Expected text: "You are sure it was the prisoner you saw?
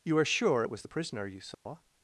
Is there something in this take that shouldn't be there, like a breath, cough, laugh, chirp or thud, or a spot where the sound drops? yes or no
yes